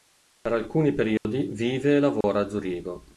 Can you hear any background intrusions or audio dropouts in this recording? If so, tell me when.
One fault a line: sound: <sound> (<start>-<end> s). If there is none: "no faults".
sound: dropout (1.2-1.2 s)
sound: dropout (2.2-2.2 s)